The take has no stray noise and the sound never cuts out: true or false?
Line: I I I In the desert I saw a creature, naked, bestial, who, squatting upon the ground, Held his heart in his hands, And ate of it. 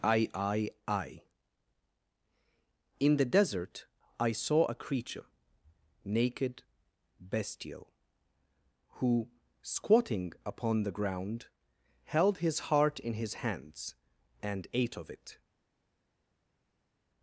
true